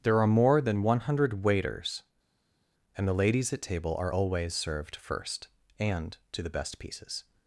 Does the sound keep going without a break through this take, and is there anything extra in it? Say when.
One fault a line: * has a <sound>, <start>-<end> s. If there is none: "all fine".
all fine